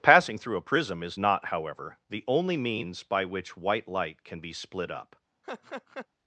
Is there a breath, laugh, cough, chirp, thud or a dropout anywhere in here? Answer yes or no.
yes